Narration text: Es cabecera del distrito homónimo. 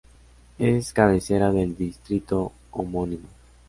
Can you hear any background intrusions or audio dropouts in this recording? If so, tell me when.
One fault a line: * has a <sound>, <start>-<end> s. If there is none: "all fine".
all fine